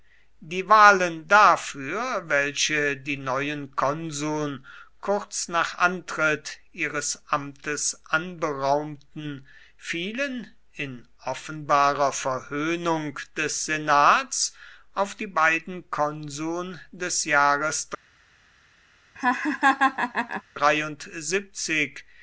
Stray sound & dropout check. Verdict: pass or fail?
fail